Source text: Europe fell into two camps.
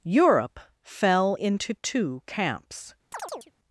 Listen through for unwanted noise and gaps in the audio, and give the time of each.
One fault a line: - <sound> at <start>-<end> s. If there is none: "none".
- chirp at 3.1-3.5 s